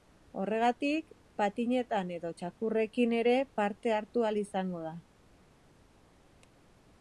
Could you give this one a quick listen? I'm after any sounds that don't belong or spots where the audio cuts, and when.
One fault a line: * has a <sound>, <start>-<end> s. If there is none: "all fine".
all fine